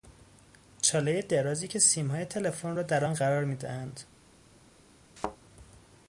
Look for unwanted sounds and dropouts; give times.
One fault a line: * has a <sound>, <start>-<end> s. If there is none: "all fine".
* has a thud, 5.2-5.4 s